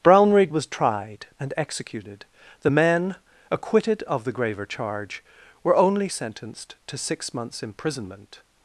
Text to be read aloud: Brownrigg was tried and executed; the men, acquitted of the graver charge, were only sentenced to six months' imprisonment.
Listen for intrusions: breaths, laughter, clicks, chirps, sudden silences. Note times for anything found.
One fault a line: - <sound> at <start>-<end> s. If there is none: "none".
none